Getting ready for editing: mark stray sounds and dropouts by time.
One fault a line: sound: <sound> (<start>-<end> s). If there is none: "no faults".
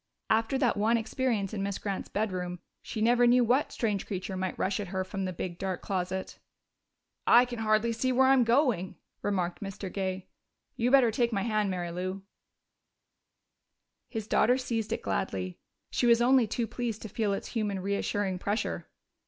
no faults